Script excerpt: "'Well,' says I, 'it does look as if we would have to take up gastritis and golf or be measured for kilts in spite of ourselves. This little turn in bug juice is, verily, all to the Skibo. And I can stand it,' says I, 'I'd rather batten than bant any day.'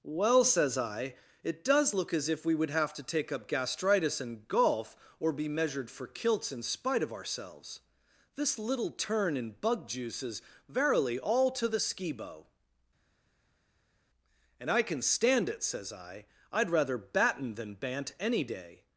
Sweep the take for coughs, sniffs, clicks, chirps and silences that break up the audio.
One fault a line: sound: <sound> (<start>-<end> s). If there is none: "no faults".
no faults